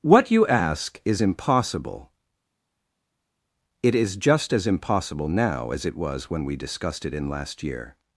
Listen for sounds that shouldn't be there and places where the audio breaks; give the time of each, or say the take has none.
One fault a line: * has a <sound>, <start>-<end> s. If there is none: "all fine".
all fine